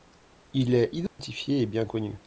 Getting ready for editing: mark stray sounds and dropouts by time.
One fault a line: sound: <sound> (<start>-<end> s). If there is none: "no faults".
sound: dropout (1.1-1.2 s)